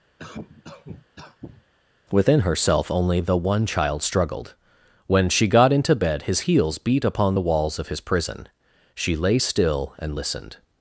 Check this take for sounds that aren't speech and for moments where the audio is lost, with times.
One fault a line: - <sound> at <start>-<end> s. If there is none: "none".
- cough at 0.2-1.6 s